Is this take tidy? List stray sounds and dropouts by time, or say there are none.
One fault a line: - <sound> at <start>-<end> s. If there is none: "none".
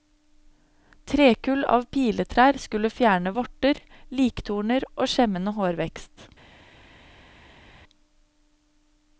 none